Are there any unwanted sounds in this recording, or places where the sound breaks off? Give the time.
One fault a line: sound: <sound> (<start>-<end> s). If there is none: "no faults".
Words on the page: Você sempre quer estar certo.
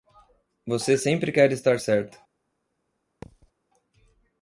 sound: thud (3.2-3.5 s)